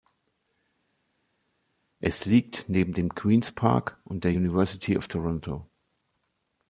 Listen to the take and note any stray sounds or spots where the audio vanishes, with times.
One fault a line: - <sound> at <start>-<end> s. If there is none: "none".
none